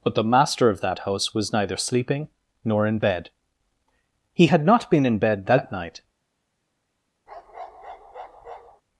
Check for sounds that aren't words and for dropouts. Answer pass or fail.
fail